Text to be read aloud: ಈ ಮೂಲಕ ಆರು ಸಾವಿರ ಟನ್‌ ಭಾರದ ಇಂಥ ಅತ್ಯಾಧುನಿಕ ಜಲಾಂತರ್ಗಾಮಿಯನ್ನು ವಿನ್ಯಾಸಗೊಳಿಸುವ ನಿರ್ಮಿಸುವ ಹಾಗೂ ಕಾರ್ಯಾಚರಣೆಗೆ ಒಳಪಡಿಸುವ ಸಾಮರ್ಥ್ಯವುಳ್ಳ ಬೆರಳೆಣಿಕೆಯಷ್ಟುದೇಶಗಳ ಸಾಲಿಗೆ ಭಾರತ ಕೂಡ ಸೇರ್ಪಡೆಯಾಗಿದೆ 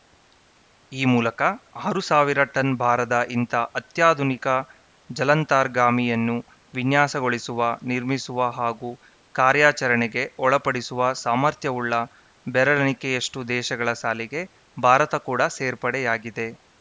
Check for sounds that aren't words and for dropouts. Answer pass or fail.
pass